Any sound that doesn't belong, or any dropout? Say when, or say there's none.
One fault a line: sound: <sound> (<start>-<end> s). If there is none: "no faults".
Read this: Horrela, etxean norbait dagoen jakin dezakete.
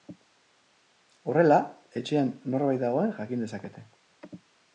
no faults